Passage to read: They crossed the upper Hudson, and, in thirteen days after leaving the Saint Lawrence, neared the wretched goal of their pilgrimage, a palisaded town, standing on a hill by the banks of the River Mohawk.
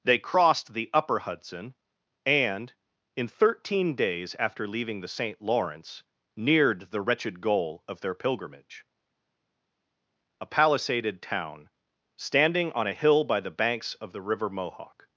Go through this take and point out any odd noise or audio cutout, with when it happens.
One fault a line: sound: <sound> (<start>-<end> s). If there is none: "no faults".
no faults